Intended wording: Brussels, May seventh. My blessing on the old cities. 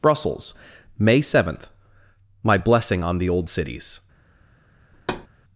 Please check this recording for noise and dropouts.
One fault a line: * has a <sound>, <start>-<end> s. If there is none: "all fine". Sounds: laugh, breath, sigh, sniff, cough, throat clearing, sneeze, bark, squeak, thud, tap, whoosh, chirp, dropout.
* has a thud, 4.9-5.3 s